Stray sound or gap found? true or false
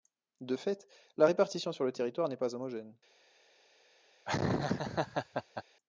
true